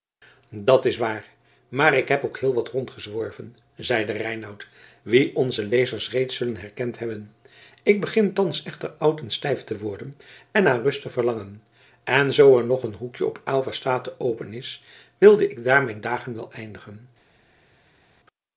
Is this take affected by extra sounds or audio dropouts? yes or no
no